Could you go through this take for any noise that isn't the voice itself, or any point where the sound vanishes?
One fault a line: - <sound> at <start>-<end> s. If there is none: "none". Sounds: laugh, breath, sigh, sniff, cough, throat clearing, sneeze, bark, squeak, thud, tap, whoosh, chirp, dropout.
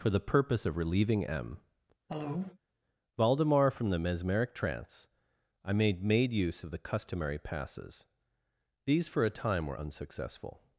- cough at 2.1-2.6 s